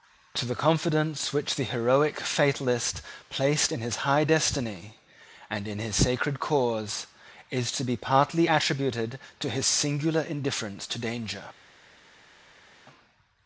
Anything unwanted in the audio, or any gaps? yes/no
no